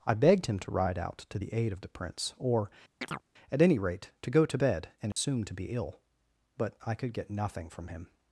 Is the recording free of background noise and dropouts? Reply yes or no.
no